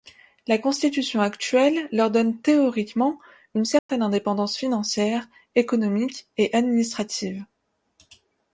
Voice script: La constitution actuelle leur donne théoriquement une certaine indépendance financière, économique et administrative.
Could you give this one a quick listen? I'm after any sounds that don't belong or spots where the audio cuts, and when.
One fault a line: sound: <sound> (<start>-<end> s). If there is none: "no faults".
sound: dropout (3.8-3.9 s)